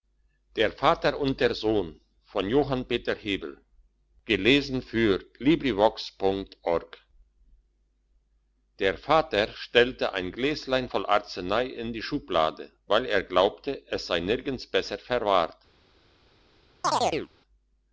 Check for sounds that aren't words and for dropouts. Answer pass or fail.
fail